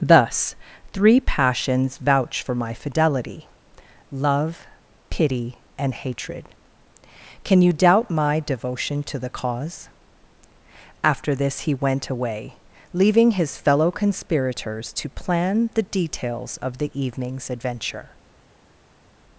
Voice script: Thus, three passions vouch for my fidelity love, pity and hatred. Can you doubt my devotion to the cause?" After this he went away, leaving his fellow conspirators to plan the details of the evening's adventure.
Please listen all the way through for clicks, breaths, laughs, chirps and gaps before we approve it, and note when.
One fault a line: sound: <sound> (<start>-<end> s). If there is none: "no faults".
no faults